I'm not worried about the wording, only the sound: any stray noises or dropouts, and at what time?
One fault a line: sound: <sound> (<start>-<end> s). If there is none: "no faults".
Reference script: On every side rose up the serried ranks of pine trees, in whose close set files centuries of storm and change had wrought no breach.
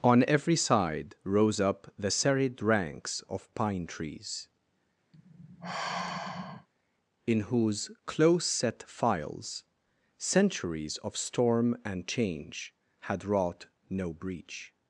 sound: sigh (5.1-6.7 s)